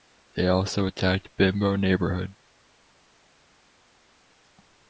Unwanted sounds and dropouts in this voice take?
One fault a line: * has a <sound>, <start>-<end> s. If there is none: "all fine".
all fine